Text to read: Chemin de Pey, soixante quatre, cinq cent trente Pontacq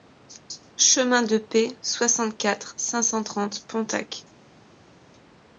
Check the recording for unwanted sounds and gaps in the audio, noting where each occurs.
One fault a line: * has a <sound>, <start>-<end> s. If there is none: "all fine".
all fine